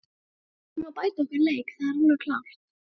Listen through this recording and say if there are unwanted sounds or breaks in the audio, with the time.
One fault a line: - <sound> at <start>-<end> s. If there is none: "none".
none